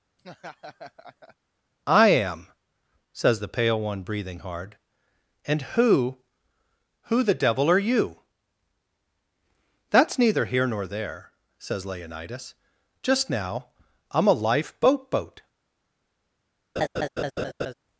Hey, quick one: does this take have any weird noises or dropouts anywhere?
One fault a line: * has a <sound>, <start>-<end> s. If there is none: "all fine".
* has a laugh, 0.2-1.4 s
* has a laugh, 16.8-17.7 s